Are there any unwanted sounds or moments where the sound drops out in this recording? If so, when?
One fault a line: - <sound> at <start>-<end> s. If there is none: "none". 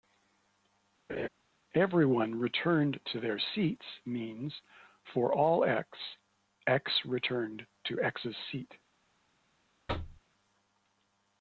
- laugh at 1.1-1.3 s
- thud at 9.9-10.2 s